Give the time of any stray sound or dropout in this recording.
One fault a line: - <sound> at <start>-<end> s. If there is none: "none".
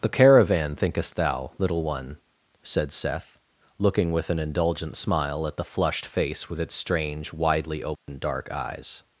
- dropout at 8.0-8.1 s